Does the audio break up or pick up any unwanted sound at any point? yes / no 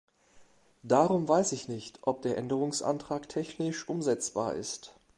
no